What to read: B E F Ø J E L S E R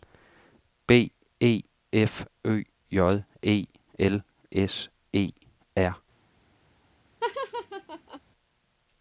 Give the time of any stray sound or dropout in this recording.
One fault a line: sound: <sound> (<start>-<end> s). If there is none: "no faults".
sound: laugh (7.2-8.2 s)